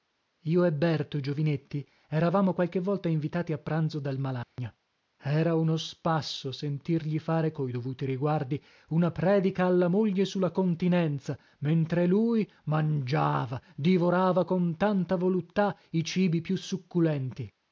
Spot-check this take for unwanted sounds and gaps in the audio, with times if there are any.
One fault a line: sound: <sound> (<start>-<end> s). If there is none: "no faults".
sound: dropout (4.4-4.6 s)